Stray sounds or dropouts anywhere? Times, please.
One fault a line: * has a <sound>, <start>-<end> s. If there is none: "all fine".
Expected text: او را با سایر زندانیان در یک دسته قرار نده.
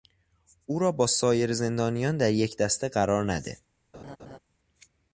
* has a laugh, 3.9-4.4 s